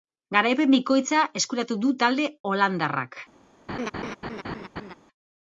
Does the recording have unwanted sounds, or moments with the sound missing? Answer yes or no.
yes